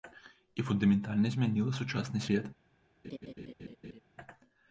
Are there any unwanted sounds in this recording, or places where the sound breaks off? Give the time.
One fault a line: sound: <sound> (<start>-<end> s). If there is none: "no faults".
sound: laugh (3.0-4.0 s)